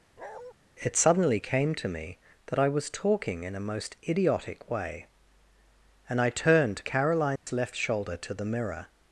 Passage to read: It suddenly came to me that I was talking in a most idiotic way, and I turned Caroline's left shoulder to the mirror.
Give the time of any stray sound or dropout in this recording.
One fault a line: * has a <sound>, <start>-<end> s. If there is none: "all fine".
* has a bark, 0.2-0.5 s
* has a dropout, 7.4-7.5 s